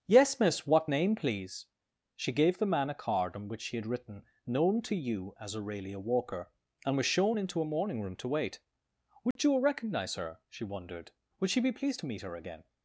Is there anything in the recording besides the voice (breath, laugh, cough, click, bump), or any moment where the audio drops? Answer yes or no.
yes